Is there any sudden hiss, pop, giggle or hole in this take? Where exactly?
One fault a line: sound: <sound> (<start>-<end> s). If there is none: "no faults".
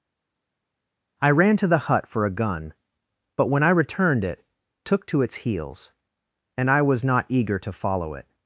no faults